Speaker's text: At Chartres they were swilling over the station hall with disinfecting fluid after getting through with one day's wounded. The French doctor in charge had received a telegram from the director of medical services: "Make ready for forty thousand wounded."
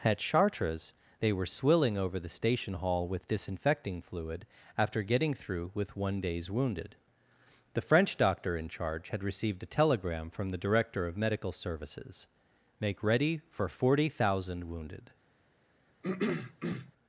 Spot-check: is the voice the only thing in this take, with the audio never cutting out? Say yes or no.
no